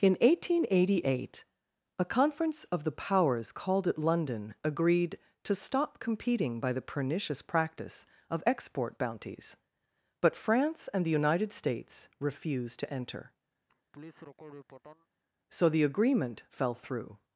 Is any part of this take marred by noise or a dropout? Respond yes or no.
yes